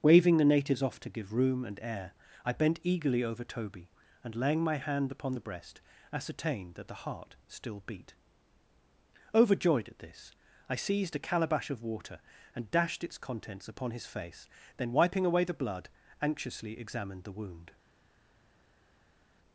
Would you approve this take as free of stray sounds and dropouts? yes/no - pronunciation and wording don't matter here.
yes